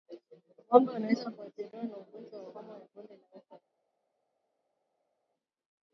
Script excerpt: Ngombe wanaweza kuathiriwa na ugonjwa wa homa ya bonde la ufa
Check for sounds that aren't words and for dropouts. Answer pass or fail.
pass